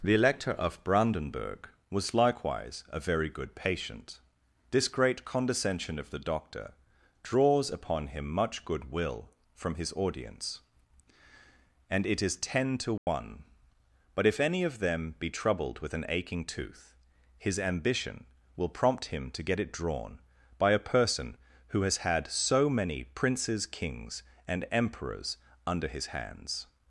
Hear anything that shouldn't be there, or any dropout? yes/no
yes